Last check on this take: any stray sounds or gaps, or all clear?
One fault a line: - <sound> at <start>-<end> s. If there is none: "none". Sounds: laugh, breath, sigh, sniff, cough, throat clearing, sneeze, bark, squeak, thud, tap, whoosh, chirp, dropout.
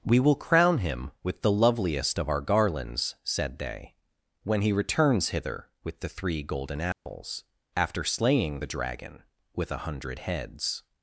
- dropout at 6.9-7.1 s